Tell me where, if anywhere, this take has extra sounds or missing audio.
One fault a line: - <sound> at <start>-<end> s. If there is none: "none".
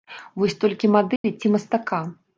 - dropout at 1.2-1.2 s